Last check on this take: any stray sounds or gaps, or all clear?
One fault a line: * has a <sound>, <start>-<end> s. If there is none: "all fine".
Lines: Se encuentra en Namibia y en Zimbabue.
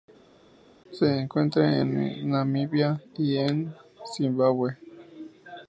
all fine